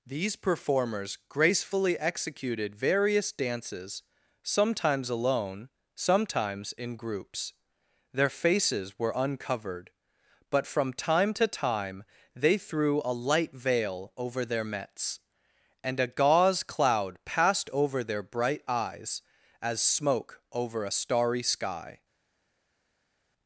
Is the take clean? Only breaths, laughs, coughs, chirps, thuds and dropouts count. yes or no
yes